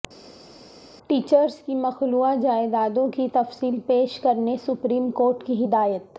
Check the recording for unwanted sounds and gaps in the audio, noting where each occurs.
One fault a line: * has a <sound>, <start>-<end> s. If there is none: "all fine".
all fine